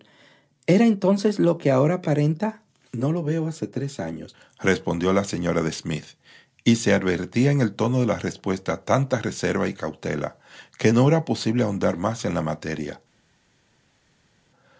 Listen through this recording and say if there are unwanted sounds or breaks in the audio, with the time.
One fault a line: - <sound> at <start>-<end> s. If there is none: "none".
none